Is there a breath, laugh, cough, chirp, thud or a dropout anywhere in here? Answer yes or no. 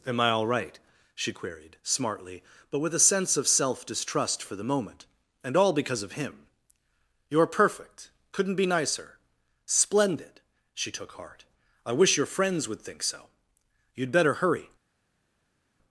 no